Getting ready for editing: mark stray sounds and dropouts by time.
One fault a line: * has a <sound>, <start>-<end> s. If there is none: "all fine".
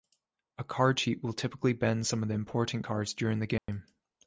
* has a dropout, 3.6-3.7 s